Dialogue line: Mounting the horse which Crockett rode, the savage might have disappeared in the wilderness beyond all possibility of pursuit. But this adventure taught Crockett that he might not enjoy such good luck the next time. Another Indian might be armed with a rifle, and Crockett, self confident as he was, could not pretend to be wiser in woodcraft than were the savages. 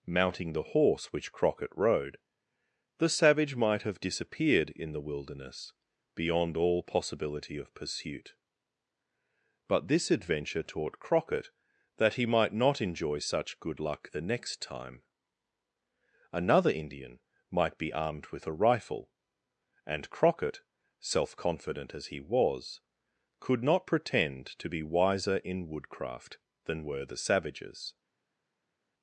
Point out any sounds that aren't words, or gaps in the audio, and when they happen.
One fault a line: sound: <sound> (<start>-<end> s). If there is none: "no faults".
no faults